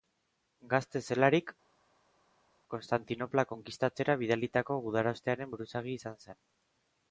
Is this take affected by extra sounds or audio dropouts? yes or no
no